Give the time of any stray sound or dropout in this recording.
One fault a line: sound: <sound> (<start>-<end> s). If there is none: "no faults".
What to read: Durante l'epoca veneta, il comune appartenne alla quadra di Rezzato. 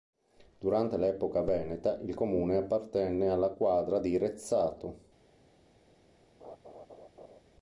sound: laugh (6.4-7.4 s)